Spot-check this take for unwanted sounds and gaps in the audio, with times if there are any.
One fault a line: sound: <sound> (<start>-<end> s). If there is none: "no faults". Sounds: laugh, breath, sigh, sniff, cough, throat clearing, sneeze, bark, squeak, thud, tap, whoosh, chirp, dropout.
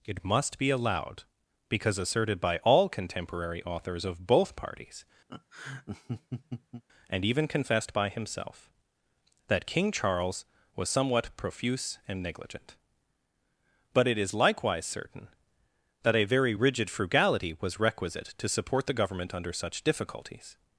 sound: laugh (5.3-6.8 s)